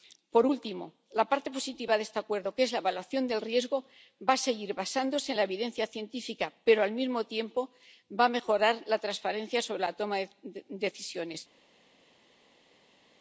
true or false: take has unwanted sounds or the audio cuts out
false